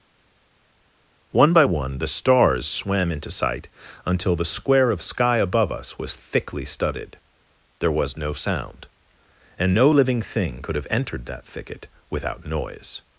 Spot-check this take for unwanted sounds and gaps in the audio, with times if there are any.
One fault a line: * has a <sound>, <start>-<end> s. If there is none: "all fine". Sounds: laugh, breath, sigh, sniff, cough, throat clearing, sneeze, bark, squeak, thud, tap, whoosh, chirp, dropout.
all fine